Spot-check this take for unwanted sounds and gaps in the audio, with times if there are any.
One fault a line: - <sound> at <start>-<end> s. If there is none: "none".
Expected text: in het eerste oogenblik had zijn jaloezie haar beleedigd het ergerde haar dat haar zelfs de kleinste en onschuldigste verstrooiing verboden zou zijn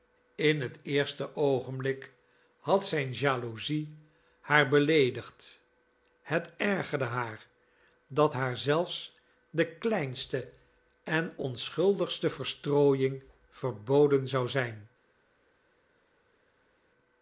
none